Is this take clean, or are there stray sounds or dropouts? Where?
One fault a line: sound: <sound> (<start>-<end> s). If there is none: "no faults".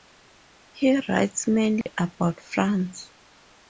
sound: dropout (1.8-1.9 s)